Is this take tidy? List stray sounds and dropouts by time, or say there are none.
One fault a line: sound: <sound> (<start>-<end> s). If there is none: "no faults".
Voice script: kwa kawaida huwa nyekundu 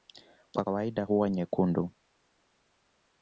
no faults